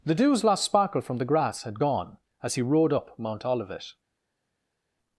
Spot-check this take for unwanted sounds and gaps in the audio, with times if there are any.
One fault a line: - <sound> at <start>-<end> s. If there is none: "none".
none